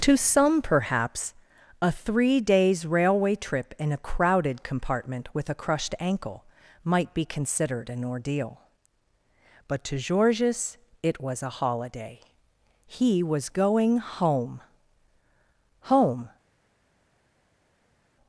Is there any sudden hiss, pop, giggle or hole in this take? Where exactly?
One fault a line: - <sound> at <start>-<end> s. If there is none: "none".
none